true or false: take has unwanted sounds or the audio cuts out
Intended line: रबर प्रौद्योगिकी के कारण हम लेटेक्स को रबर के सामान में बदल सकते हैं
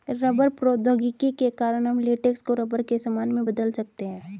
false